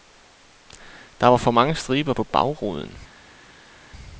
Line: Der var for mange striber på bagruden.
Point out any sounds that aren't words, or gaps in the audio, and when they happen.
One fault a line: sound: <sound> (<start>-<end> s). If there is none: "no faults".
no faults